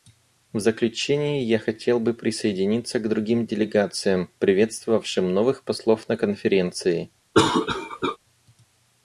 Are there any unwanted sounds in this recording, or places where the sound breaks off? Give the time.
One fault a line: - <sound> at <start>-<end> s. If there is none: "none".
- cough at 7.3-8.2 s